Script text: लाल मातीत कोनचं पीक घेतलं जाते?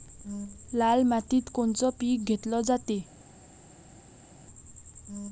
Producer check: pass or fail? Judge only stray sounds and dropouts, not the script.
pass